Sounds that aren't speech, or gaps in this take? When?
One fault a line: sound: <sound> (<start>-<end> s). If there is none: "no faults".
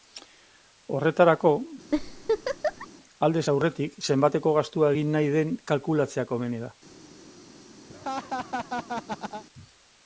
sound: laugh (1.9-2.9 s)
sound: laugh (7.9-9.4 s)